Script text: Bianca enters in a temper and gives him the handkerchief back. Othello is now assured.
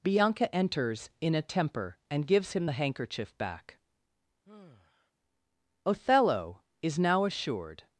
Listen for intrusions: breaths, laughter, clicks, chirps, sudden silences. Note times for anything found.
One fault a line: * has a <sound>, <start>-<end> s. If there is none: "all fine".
* has a sigh, 4.5-5.1 s